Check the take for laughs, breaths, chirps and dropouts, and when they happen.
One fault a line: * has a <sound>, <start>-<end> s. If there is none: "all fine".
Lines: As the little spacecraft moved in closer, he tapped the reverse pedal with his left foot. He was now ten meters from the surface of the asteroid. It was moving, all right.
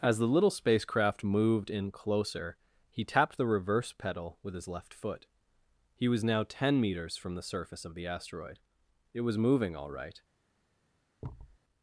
* has a thud, 11.2-11.6 s